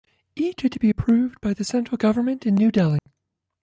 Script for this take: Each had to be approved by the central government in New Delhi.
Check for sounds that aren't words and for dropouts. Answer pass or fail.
fail